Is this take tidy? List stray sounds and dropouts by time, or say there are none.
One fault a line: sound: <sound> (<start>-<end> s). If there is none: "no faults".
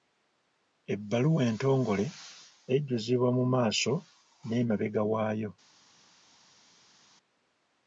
no faults